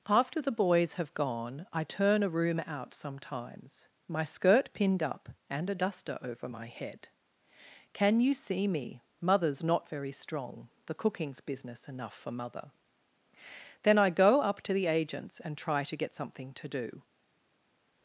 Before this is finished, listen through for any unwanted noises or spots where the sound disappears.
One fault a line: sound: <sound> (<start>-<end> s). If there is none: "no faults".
no faults